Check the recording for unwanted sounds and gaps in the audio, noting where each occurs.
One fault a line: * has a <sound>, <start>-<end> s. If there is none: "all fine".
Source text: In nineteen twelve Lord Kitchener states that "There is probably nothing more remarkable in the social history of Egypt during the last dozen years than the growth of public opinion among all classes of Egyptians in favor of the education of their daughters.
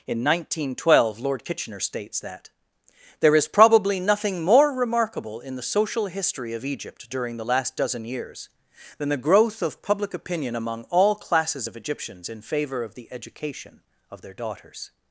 all fine